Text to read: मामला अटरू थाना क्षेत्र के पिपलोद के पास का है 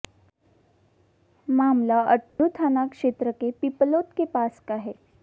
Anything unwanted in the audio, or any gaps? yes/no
yes